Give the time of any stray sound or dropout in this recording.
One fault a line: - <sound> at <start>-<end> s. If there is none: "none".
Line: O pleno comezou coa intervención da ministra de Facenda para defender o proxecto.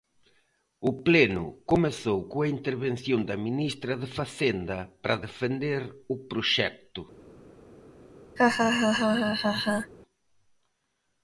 - laugh at 8.4-9.9 s